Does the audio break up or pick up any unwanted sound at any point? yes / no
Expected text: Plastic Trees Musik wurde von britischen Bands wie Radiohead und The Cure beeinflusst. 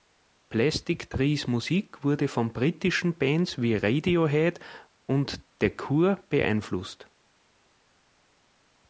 no